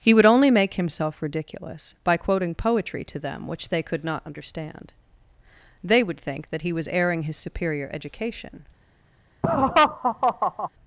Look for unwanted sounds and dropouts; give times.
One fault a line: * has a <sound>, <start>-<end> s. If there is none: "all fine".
* has a laugh, 9.4-10.7 s